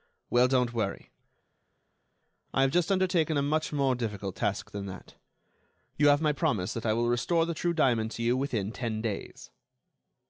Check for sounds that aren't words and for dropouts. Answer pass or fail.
pass